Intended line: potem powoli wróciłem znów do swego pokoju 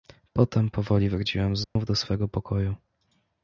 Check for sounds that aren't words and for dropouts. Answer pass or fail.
fail